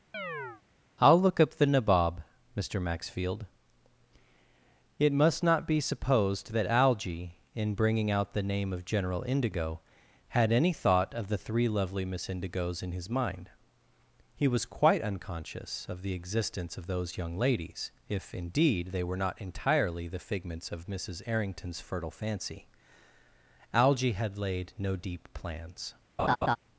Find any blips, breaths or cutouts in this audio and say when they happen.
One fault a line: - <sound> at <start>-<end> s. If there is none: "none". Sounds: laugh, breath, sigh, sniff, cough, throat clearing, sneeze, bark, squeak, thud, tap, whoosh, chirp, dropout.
- chirp at 0.1-0.6 s
- laugh at 26.2-26.6 s